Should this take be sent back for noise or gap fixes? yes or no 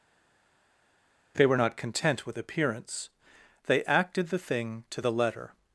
no